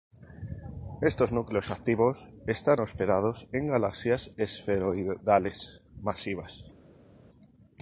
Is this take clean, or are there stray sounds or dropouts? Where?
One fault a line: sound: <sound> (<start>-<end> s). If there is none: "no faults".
no faults